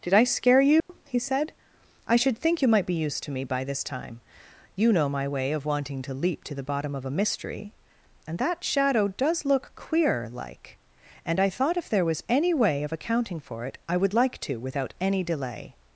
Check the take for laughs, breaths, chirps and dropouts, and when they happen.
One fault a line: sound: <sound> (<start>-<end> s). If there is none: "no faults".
sound: dropout (0.8-0.9 s)